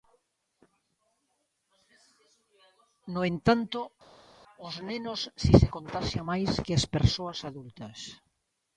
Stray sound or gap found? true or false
false